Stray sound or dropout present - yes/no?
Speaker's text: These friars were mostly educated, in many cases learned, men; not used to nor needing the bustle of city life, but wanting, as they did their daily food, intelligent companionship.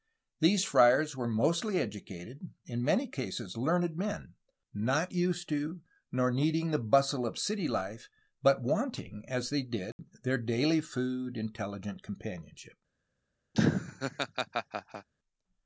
yes